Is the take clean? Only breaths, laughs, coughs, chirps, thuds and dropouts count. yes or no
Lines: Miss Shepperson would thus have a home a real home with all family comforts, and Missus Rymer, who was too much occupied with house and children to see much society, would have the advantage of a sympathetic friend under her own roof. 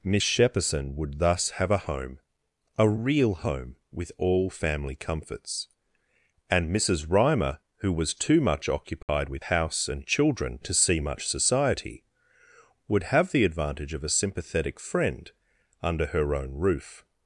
no